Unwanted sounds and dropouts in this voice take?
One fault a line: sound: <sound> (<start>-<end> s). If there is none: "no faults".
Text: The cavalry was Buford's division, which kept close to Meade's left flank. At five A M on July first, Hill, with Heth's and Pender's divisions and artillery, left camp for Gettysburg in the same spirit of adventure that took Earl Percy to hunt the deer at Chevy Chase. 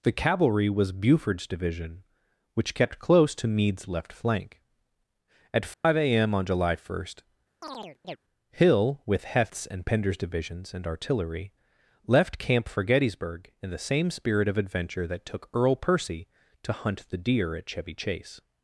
sound: dropout (5.7-5.8 s)
sound: chirp (7.6-8.2 s)